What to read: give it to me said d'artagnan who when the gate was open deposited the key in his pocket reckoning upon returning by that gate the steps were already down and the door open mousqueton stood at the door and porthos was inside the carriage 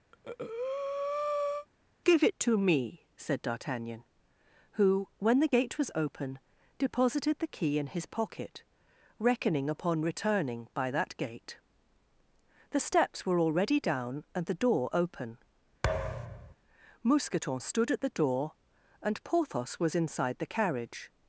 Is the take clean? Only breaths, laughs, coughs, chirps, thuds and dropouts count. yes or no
no